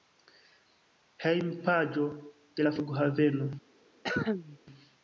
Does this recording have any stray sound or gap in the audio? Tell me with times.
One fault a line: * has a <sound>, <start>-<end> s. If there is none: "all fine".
* has a cough, 4.0-4.6 s